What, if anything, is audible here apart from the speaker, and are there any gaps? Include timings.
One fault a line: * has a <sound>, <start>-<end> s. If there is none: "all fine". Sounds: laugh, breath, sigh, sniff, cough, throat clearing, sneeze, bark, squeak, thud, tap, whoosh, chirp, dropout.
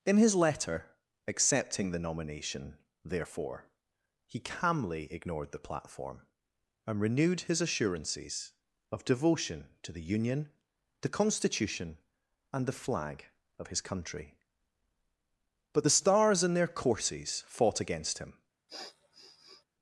* has a sniff, 18.7-19.6 s